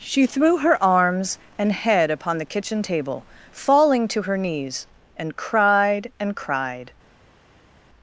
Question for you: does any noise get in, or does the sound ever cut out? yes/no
no